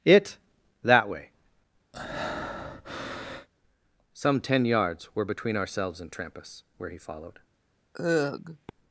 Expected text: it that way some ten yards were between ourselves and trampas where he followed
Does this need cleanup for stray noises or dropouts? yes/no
yes